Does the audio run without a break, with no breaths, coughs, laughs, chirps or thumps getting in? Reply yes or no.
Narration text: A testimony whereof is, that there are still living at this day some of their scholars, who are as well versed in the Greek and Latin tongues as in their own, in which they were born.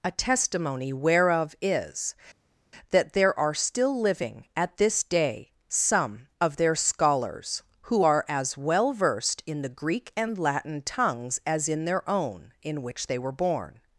yes